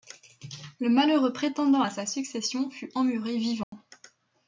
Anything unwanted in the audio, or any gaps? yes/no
yes